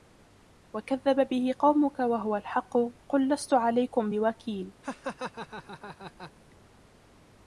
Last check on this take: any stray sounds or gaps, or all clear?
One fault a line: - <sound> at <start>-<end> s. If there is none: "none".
- laugh at 4.8-6.3 s